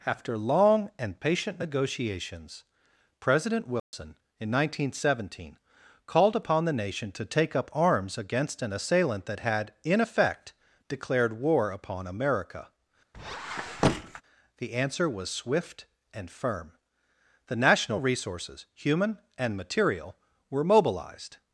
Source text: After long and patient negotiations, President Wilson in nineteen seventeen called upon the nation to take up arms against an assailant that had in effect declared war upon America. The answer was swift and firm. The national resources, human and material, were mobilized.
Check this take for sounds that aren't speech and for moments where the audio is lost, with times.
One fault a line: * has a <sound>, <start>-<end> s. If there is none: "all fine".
* has a dropout, 3.8-3.9 s
* has a squeak, 13.1-14.2 s